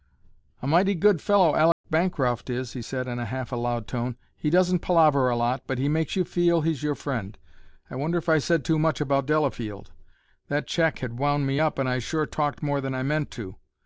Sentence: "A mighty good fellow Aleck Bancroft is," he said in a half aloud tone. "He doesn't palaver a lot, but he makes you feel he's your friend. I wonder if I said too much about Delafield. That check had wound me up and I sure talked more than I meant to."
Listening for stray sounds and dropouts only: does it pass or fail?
fail